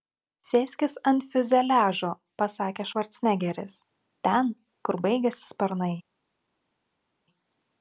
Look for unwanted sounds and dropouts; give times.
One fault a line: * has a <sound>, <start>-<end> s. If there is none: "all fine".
all fine